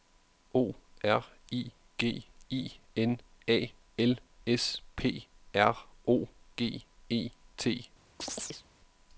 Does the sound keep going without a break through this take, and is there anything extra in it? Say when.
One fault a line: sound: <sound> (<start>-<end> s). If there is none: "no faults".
sound: chirp (8.2-8.7 s)